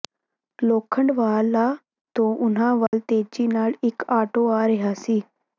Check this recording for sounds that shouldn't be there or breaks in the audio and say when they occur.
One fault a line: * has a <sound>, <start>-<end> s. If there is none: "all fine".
* has a dropout, 2.9-2.9 s